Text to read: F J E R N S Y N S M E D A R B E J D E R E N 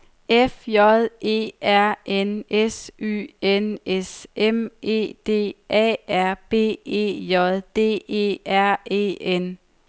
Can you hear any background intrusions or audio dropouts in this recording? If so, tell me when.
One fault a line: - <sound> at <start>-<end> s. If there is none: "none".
none